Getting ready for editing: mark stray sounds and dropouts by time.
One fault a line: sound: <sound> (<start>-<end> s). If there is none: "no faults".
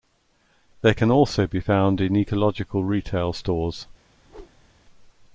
sound: whoosh (4.2-4.7 s)